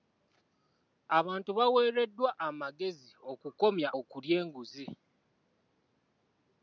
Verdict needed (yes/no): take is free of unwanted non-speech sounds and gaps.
yes